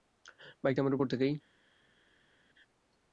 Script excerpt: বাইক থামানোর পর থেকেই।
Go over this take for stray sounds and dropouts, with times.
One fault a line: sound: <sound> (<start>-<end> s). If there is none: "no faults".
no faults